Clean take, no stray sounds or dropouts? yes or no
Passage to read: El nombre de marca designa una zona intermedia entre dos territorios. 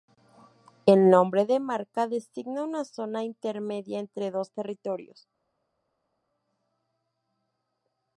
yes